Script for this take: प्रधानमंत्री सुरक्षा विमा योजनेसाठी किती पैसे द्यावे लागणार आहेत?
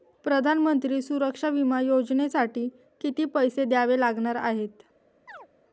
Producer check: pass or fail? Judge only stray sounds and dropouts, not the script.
fail